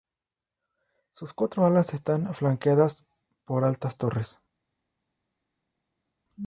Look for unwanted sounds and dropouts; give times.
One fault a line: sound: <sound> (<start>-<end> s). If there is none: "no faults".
no faults